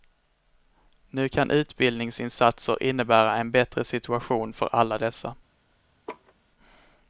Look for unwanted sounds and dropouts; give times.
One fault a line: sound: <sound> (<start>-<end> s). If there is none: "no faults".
sound: laugh (6.1-6.3 s)